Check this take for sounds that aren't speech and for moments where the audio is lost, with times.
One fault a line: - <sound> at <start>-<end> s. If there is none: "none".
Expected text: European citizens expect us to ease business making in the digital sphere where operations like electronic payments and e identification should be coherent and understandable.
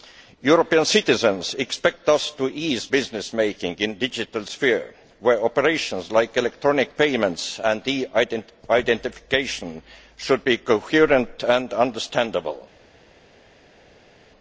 none